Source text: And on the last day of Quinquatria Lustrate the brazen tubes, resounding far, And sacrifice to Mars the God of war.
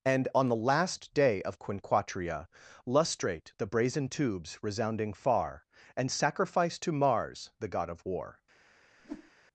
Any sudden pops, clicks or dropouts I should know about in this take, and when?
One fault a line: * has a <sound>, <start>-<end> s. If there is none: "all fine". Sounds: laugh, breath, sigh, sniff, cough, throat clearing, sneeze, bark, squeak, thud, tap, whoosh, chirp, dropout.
* has a whoosh, 9.0-9.3 s